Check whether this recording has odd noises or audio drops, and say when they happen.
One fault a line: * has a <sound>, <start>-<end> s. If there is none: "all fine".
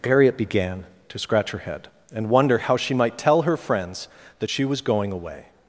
all fine